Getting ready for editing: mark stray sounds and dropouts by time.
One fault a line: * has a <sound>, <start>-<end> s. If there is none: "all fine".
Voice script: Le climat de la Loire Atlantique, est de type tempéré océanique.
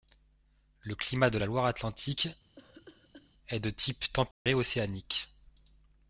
* has a cough, 2.6-3.3 s
* has a dropout, 4.3-4.5 s